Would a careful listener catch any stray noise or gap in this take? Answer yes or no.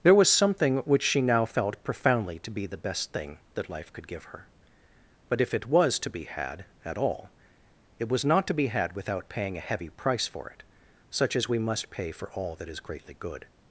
no